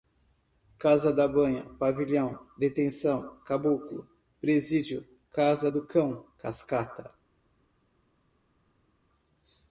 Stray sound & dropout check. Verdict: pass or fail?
pass